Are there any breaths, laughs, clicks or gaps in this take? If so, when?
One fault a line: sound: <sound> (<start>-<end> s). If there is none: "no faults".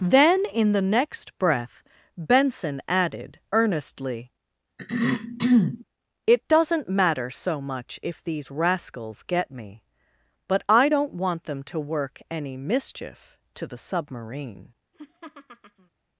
sound: throat clearing (4.8-5.8 s)
sound: laugh (14.9-15.9 s)